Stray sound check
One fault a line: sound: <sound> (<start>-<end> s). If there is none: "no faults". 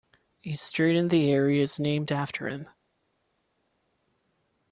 no faults